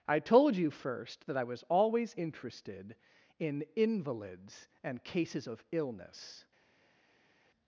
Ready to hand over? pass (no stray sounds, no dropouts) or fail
pass